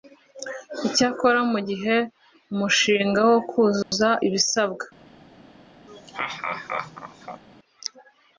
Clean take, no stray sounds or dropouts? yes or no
no